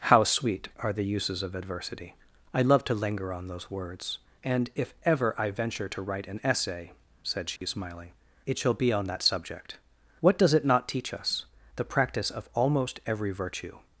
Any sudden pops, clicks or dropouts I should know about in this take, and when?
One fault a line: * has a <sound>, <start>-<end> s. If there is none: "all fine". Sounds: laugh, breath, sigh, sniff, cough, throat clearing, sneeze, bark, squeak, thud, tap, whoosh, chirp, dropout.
* has a dropout, 7.6-7.6 s